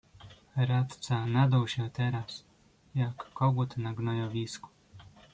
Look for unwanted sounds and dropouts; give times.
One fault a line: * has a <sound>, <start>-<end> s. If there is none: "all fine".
all fine